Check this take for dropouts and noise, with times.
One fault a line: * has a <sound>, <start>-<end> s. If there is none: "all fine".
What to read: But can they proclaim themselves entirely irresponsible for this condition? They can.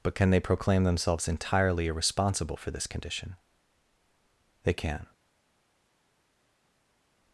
all fine